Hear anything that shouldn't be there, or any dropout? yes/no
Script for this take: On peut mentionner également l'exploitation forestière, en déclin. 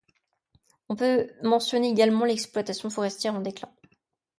no